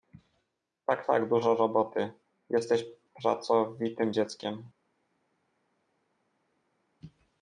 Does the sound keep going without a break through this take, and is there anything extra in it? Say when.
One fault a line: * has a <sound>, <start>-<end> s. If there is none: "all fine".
all fine